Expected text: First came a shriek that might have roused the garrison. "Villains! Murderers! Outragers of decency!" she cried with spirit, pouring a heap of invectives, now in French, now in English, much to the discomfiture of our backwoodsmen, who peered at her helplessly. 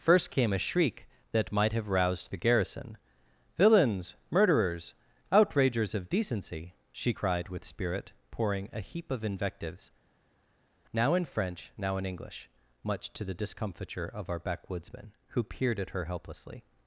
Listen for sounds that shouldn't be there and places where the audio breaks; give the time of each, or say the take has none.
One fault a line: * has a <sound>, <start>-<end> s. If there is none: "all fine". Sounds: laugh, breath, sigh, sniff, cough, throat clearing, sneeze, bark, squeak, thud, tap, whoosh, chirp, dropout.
all fine